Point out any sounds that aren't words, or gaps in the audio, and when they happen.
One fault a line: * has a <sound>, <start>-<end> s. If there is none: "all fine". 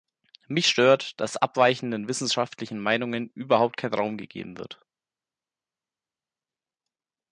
all fine